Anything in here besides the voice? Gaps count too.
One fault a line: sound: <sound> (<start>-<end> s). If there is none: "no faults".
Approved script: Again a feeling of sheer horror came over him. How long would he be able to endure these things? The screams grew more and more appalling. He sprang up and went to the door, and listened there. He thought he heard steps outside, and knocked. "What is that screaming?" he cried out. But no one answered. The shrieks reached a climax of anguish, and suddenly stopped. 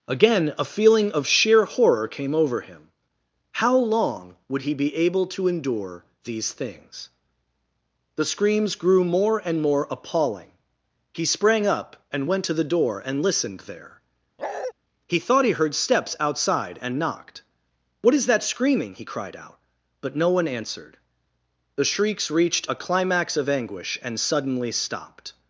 sound: bark (14.4-14.7 s)